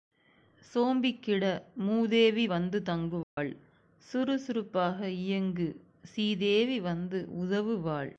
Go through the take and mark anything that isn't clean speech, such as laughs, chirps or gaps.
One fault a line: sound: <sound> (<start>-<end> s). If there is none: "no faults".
sound: dropout (3.2-3.4 s)